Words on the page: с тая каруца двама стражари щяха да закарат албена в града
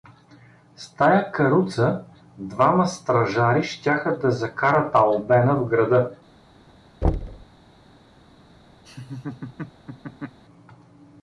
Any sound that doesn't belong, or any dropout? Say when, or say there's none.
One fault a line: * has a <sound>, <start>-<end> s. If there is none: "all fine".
* has a thud, 7.0-7.5 s
* has a laugh, 8.8-10.4 s